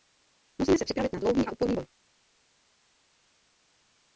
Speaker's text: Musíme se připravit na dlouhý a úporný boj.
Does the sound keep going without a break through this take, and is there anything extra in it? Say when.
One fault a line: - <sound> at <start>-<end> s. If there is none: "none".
none